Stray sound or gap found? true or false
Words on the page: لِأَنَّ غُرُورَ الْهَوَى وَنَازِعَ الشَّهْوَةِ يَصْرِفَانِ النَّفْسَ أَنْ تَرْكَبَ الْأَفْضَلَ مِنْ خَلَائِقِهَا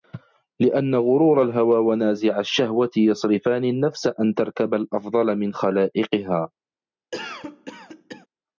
true